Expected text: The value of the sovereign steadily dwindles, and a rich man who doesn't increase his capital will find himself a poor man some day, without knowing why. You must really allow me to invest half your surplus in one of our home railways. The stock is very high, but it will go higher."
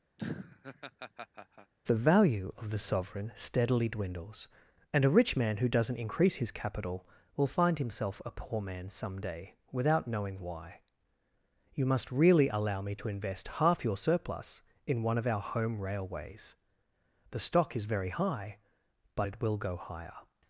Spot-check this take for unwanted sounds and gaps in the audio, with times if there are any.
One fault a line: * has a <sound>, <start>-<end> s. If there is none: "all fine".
* has a laugh, 0.2-1.7 s